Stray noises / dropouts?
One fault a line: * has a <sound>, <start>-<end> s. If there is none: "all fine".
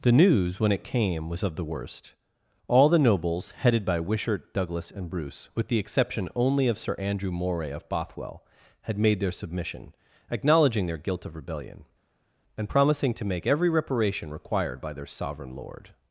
all fine